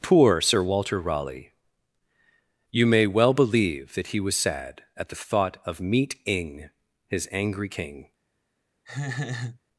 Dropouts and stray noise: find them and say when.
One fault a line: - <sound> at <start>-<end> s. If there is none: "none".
- laugh at 8.9-9.6 s